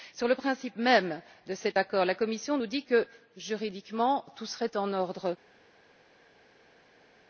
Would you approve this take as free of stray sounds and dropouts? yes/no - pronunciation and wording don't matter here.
yes